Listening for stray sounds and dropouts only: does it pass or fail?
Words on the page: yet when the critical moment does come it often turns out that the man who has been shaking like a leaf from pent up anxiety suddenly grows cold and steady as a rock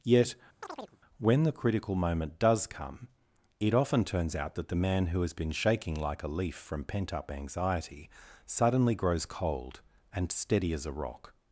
fail